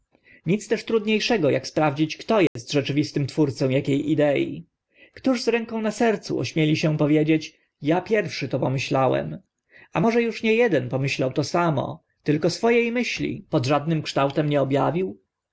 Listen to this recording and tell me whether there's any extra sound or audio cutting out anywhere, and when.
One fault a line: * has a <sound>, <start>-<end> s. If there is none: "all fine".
* has a dropout, 2.5-2.6 s